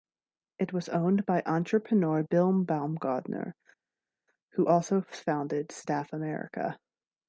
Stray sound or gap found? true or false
false